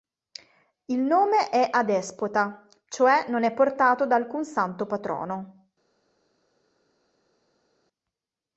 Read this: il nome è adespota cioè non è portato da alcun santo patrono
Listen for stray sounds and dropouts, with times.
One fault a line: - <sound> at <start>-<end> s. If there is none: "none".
none